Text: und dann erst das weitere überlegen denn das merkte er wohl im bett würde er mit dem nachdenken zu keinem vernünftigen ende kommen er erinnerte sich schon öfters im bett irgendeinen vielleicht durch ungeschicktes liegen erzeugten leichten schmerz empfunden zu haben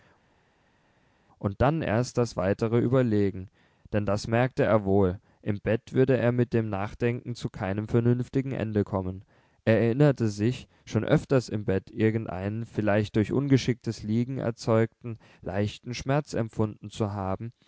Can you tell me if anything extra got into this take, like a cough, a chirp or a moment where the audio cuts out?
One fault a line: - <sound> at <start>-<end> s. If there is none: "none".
none